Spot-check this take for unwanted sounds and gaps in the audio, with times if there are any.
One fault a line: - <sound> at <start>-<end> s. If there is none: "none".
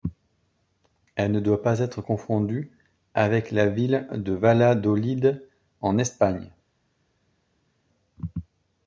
none